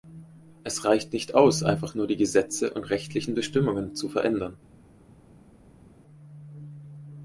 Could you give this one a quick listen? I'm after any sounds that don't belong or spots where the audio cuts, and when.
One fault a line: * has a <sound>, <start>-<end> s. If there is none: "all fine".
all fine